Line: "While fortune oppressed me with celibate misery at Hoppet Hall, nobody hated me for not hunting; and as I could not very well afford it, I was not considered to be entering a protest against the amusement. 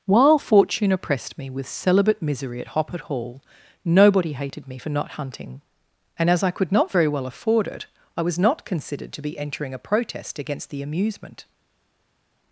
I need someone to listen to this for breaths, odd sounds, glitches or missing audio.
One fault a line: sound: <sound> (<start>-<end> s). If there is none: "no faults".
no faults